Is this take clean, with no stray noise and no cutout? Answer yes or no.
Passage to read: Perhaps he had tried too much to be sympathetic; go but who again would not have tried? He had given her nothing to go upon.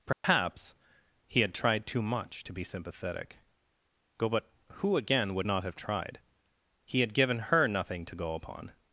no